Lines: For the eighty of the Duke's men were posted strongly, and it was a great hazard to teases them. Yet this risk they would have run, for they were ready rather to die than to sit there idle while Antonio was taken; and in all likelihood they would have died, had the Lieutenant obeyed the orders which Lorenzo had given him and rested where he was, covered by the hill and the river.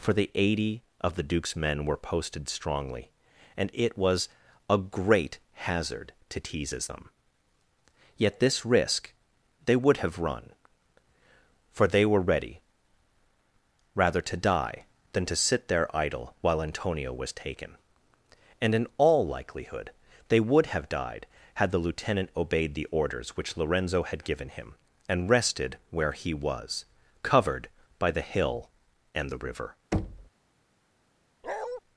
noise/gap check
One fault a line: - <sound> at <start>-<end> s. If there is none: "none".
- thud at 29.9-30.3 s
- bark at 31.4-31.8 s